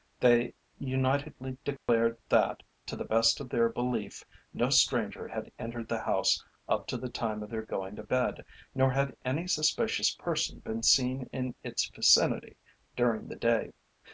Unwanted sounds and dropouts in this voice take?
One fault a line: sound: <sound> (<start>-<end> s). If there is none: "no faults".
sound: dropout (1.8-1.9 s)